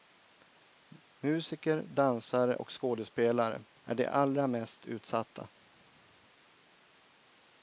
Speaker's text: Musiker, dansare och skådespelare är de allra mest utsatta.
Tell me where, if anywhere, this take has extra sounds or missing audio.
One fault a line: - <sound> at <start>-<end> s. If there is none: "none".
none